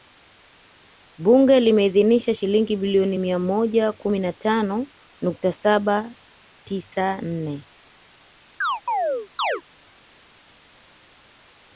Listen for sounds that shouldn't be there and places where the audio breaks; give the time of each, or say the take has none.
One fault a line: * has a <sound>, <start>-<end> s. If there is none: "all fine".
* has a chirp, 8.6-9.6 s